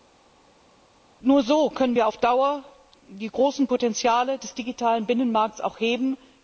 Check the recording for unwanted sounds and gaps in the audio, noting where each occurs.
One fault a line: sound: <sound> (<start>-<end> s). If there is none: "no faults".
no faults